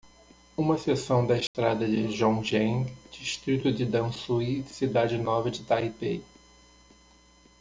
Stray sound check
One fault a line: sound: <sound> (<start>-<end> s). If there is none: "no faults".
sound: dropout (1.5-1.5 s)